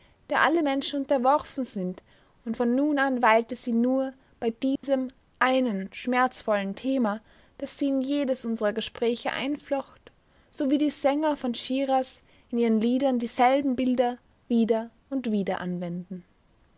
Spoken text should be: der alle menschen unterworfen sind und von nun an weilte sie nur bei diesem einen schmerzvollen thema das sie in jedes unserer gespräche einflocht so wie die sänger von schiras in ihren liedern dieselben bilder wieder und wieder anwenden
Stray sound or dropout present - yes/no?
yes